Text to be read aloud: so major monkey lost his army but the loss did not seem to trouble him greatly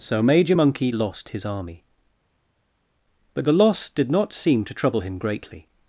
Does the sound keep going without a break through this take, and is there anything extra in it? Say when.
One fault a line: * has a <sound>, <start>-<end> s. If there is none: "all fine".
all fine